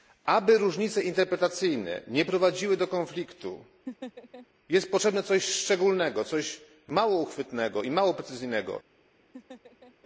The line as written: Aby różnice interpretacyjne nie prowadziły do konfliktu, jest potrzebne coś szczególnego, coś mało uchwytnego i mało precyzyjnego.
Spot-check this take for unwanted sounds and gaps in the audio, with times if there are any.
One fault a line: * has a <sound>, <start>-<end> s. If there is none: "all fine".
* has a laugh, 3.9-4.5 s
* has a laugh, 9.3-9.9 s